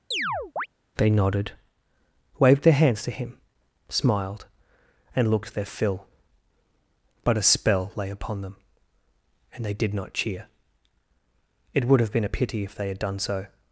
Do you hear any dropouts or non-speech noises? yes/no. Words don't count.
yes